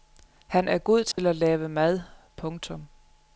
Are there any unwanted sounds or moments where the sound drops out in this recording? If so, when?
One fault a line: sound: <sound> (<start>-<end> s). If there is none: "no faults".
sound: dropout (1.1-1.2 s)